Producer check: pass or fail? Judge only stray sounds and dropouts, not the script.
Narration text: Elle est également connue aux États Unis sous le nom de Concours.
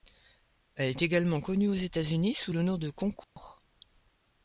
fail